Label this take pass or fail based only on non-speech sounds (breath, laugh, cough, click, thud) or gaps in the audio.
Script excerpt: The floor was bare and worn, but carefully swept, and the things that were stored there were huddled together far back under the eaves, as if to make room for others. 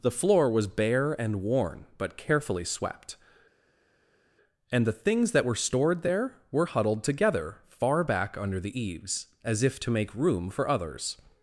pass